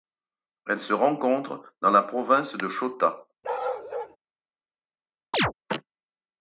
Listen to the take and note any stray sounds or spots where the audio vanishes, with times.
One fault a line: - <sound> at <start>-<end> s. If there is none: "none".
- bark at 3.4-4.2 s
- chirp at 5.3-5.5 s